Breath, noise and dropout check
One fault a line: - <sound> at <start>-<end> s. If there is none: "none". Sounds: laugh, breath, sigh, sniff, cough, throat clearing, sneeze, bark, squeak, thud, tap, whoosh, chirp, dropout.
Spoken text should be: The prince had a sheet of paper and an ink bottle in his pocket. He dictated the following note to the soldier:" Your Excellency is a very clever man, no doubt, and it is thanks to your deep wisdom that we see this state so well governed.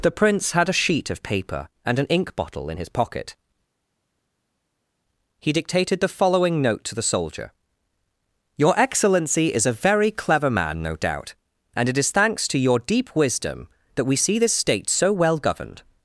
none